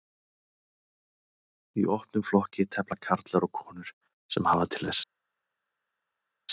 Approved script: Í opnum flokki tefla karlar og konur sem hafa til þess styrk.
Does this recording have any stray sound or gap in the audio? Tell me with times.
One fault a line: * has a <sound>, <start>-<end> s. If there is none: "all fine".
all fine